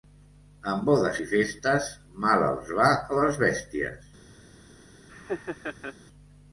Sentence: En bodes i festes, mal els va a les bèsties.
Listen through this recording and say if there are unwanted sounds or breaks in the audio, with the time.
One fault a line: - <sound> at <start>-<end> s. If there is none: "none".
- laugh at 5.1-6.0 s